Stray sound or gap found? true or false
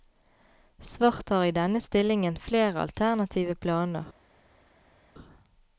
false